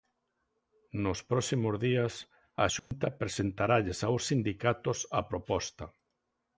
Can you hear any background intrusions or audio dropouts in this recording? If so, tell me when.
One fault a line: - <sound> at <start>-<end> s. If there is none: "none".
- dropout at 2.8-2.9 s